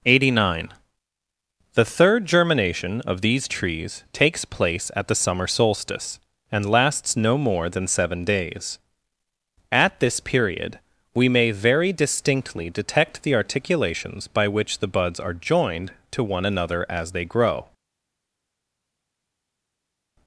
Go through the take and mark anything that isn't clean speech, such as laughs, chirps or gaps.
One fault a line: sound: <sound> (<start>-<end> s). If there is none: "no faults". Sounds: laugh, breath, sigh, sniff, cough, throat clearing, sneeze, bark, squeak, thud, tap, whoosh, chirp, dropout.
no faults